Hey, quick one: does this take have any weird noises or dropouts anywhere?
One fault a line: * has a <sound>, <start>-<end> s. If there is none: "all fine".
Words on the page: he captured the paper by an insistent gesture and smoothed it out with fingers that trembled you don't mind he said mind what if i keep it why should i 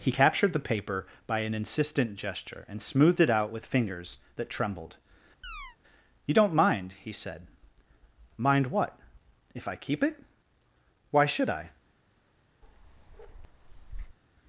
* has a chirp, 5.4-5.8 s
* has a bark, 12.6-14.2 s